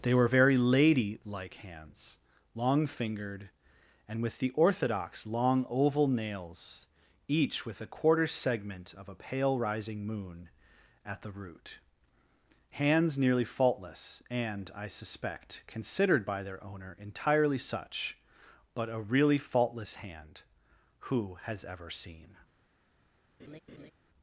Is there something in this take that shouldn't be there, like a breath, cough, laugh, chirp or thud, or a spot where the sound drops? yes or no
yes